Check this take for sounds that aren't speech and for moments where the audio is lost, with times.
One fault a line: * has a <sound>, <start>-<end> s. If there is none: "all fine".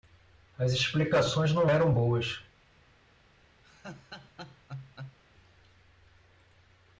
* has a laugh, 3.6-5.2 s